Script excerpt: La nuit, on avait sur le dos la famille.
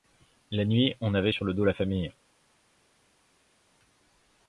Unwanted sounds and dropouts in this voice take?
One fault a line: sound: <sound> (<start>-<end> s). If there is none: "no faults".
no faults